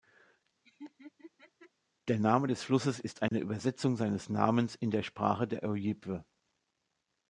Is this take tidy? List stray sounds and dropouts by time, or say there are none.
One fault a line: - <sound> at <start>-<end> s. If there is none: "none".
- laugh at 0.6-1.7 s
- dropout at 3.3-3.3 s